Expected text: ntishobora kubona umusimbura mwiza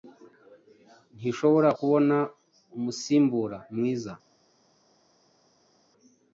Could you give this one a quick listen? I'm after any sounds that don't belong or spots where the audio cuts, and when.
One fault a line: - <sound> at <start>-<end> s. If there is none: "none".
none